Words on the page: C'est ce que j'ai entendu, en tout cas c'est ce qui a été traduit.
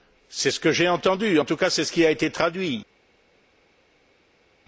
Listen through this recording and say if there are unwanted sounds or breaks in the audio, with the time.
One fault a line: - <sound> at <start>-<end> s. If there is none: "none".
none